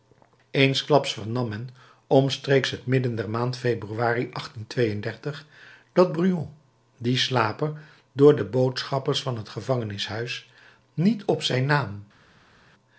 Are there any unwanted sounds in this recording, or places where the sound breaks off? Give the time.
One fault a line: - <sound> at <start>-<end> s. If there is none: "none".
none